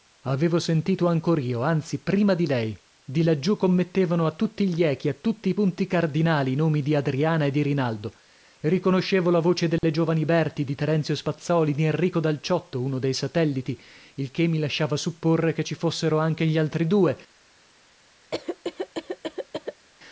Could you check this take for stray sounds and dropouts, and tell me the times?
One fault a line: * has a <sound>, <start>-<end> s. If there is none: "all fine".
* has a dropout, 9.8-9.8 s
* has a cough, 18.3-19.9 s